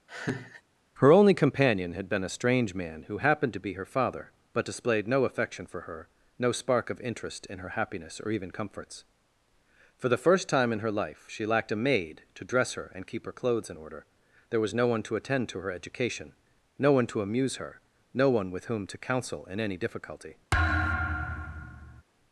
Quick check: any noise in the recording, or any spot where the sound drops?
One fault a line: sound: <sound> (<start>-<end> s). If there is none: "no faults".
sound: laugh (0.1-0.6 s)
sound: thud (20.5-22.0 s)